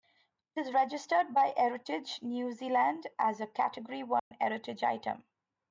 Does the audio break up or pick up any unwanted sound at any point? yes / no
yes